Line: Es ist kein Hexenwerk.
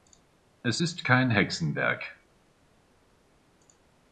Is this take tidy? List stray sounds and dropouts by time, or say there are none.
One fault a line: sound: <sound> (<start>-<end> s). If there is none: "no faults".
no faults